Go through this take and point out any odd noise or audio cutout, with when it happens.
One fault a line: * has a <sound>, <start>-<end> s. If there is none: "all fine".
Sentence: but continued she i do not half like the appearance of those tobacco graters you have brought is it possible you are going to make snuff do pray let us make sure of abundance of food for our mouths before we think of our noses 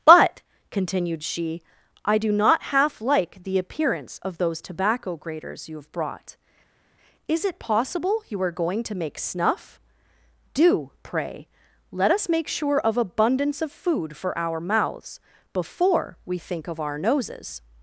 all fine